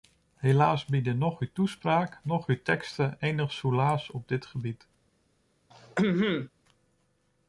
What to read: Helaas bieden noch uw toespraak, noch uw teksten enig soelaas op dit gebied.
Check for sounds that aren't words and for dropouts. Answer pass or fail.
fail